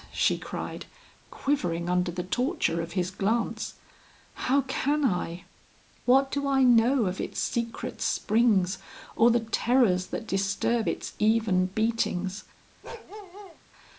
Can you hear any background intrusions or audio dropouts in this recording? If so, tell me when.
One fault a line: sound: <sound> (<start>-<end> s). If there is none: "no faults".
sound: bark (12.8-13.6 s)